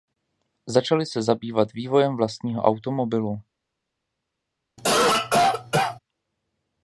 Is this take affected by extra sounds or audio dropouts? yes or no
yes